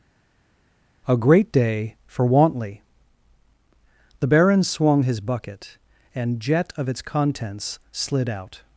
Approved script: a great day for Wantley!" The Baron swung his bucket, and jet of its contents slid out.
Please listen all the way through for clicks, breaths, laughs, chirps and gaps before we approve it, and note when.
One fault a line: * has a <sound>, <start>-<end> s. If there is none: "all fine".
all fine